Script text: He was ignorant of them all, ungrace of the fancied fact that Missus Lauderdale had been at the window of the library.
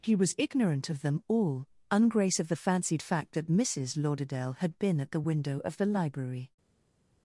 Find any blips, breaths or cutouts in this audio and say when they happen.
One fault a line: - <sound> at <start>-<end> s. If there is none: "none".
none